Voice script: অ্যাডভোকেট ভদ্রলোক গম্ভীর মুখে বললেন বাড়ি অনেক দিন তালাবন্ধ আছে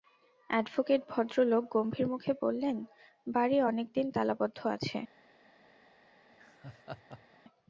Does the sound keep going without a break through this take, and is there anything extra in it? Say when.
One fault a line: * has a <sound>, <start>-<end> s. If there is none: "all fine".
* has a laugh, 6.3-7.4 s